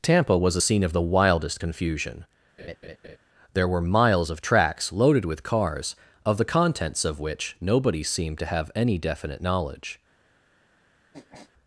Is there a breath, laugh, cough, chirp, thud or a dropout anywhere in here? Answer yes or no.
yes